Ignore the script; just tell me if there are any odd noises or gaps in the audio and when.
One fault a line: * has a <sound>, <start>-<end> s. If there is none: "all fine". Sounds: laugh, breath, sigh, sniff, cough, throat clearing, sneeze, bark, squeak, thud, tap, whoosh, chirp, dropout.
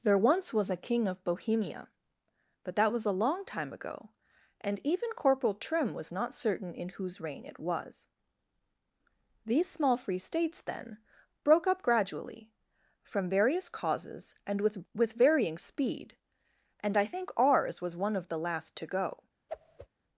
* has a whoosh, 19.5-19.9 s